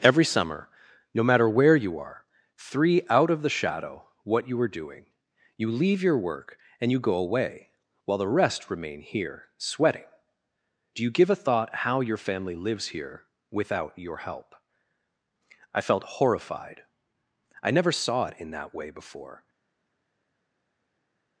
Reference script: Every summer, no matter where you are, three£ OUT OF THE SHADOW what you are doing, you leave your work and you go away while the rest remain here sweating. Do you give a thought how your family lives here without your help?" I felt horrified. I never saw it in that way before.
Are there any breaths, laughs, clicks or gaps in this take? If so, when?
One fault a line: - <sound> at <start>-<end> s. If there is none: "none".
none